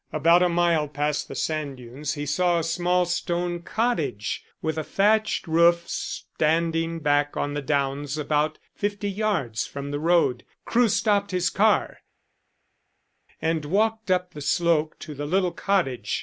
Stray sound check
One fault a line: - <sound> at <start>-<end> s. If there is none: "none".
none